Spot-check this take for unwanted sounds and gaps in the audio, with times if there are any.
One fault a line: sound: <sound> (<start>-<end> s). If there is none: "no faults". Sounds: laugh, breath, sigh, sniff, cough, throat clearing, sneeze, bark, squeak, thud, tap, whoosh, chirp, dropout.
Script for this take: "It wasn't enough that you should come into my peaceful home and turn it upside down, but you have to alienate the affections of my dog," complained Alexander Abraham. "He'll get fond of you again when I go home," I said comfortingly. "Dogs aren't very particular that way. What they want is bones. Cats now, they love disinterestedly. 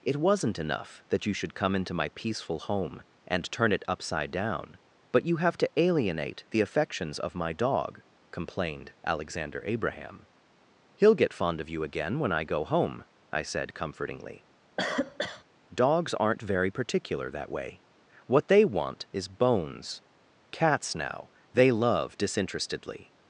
sound: cough (14.8-15.4 s)